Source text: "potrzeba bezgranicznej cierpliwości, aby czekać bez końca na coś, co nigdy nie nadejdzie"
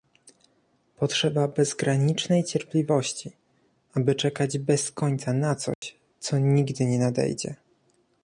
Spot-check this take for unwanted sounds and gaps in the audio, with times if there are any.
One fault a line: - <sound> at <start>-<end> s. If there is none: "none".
- dropout at 5.7-5.8 s